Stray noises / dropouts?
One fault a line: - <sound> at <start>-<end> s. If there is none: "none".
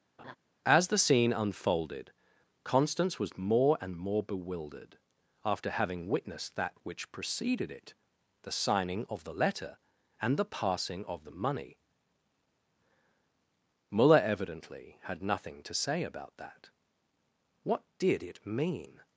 - laugh at 0.2-0.4 s